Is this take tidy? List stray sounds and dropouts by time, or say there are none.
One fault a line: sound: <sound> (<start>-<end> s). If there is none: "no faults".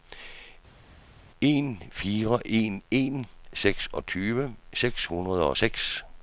no faults